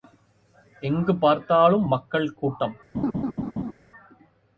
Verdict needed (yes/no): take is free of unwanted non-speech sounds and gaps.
no